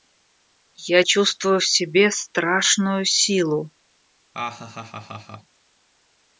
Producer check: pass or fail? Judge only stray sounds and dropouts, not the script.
fail